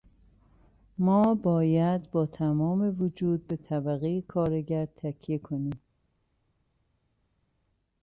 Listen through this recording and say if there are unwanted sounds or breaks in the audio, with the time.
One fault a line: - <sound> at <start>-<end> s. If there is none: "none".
none